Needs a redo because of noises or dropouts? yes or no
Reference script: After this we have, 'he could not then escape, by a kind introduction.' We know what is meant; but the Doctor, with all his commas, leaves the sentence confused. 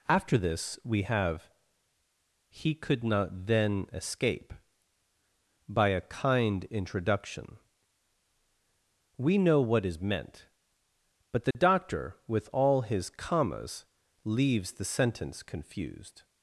yes